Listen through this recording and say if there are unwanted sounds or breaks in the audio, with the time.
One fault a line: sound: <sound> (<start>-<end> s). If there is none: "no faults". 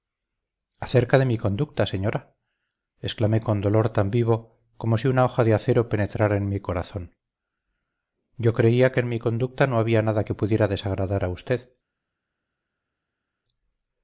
no faults